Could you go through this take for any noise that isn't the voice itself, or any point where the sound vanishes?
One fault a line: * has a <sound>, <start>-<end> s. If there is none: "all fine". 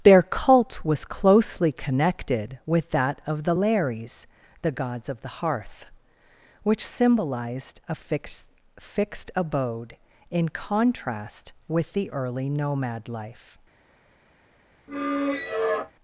* has a squeak, 14.9-15.9 s